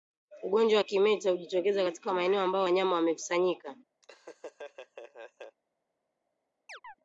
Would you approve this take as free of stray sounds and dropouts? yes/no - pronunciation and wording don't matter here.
no